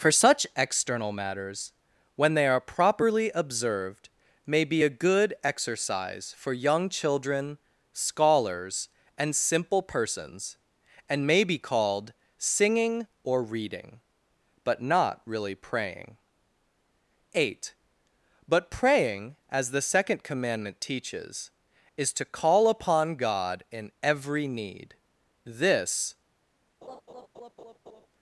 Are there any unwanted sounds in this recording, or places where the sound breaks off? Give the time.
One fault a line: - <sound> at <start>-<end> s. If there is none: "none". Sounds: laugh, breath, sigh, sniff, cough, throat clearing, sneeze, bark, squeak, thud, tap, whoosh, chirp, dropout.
- laugh at 26.8-28.1 s